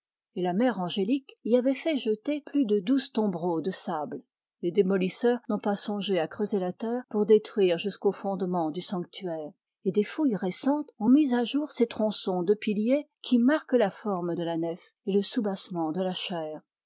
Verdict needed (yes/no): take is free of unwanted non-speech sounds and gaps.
yes